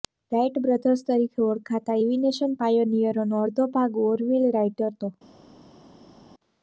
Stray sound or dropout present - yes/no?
no